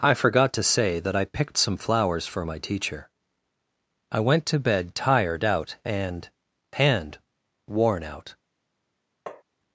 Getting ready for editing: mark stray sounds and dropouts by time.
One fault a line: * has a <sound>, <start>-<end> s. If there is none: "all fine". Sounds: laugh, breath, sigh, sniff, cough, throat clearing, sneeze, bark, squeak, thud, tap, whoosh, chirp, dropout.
* has a tap, 9.3-9.4 s